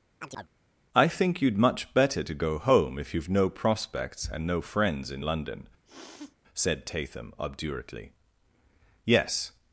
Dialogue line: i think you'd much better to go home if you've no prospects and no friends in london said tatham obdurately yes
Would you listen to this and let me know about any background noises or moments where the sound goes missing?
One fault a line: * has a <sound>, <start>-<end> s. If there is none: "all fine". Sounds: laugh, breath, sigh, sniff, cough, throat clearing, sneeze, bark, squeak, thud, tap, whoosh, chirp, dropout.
* has a chirp, 0.2-0.5 s
* has a sniff, 5.8-6.4 s